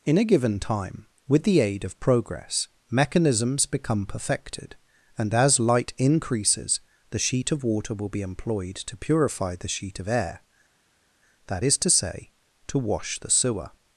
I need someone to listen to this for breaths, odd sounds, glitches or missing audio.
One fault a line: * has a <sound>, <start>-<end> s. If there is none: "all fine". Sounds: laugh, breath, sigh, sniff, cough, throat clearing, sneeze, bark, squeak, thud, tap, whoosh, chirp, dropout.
all fine